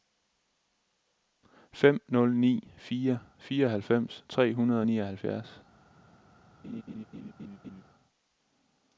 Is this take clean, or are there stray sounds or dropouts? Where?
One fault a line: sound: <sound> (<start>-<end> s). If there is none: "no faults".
sound: laugh (6.6-7.8 s)